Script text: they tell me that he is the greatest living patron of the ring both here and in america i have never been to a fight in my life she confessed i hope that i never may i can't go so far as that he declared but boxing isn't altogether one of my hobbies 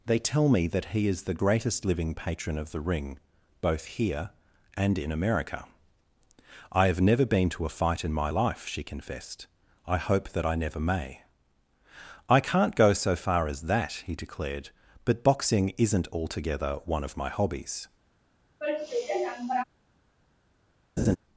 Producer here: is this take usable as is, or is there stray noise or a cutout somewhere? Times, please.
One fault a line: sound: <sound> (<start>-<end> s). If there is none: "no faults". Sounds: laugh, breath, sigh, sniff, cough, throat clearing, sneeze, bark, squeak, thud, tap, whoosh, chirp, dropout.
sound: sigh (18.6-19.6 s)
sound: laugh (21.0-21.2 s)